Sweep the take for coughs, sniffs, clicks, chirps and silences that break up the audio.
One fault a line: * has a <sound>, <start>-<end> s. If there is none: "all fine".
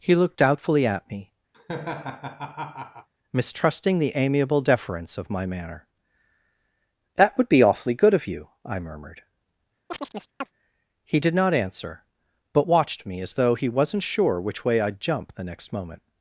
* has a laugh, 1.5-3.1 s
* has a chirp, 9.9-10.5 s